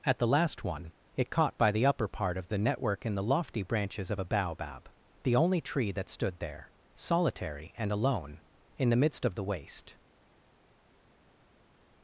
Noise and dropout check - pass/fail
pass